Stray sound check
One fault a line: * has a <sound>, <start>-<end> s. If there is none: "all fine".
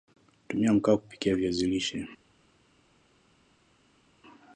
all fine